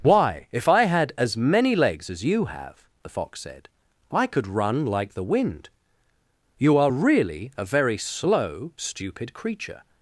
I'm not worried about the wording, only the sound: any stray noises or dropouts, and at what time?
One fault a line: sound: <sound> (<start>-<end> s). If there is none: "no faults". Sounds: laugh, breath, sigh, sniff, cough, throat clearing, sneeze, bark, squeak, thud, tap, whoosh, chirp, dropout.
no faults